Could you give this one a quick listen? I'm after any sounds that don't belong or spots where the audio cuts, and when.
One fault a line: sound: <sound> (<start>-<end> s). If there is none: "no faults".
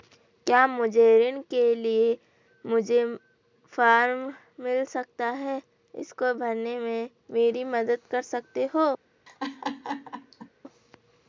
sound: laugh (9.3-10.5 s)